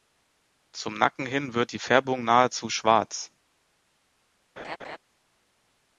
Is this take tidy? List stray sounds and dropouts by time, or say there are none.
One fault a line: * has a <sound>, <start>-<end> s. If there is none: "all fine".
* has a laugh, 4.6-5.0 s